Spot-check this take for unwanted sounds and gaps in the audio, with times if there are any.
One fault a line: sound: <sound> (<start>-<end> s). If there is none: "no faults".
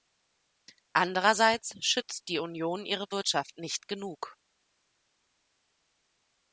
no faults